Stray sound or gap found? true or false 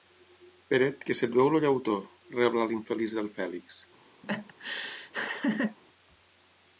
true